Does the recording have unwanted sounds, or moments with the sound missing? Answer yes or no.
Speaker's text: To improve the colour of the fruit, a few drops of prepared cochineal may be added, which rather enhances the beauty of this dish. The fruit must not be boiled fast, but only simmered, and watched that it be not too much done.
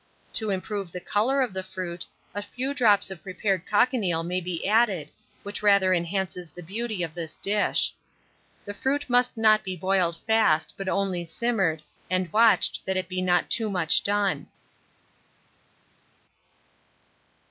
no